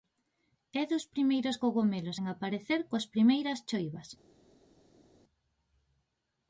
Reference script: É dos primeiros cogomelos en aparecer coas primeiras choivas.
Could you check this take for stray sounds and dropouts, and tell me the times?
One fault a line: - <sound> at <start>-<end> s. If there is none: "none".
none